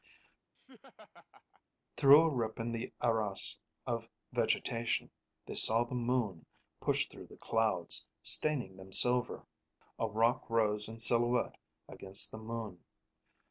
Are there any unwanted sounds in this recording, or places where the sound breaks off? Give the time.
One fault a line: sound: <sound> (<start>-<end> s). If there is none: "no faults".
sound: laugh (0.5-1.6 s)